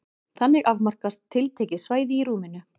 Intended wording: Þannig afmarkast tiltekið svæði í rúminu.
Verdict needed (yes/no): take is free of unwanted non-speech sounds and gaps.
yes